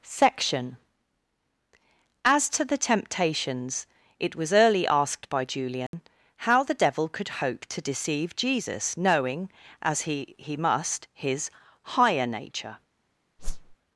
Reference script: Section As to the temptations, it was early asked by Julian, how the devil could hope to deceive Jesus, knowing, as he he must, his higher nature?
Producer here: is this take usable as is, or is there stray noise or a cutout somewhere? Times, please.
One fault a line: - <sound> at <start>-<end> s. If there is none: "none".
- dropout at 5.9-5.9 s
- whoosh at 13.4-13.8 s